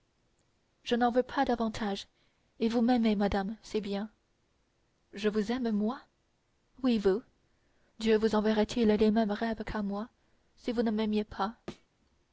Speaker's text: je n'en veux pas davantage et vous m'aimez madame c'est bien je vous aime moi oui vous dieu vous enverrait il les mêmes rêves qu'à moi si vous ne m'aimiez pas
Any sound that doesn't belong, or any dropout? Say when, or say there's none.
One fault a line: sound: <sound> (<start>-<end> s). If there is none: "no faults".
sound: thud (11.7-11.9 s)